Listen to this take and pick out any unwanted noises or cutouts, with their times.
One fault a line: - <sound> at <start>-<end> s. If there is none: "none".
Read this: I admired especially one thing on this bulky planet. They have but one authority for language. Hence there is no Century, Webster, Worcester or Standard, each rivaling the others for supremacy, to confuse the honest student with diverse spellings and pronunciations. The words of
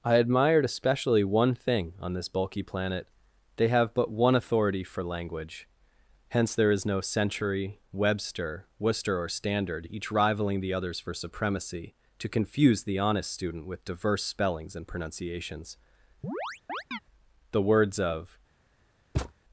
- chirp at 16.2-17.0 s
- thud at 19.1-19.3 s